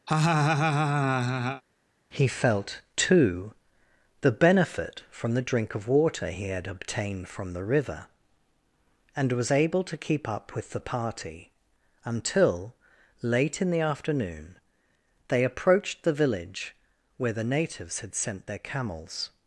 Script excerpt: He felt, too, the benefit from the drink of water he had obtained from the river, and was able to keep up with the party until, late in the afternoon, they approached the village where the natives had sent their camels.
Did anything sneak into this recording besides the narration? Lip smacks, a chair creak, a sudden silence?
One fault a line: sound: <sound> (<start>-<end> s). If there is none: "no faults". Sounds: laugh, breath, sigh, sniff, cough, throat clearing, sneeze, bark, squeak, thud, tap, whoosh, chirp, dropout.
sound: laugh (0.1-1.6 s)